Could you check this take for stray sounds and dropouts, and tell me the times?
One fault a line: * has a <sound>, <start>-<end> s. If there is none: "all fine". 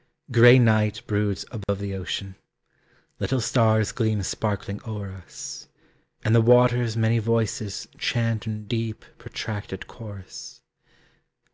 * has a dropout, 1.6-1.7 s